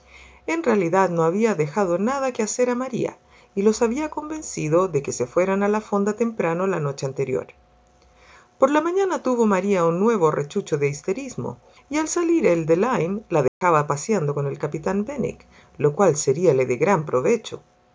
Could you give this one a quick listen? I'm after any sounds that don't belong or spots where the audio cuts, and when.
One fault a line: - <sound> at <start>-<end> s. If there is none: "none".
- dropout at 13.5-13.6 s